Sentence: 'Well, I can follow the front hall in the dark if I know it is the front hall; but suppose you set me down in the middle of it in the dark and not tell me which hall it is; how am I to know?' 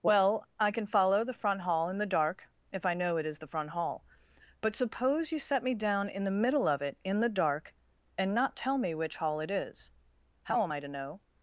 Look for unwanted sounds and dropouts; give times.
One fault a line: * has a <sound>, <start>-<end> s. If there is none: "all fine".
all fine